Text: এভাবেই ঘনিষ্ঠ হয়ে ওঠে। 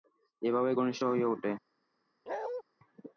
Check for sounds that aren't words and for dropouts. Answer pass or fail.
fail